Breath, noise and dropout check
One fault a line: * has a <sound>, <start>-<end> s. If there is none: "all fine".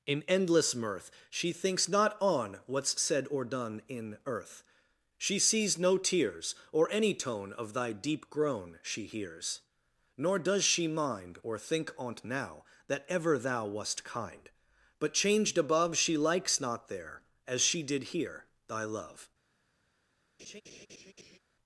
* has a laugh, 20.4-21.4 s